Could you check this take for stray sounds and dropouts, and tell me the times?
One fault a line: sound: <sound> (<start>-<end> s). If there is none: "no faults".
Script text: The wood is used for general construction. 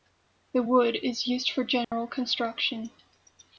sound: dropout (1.8-1.9 s)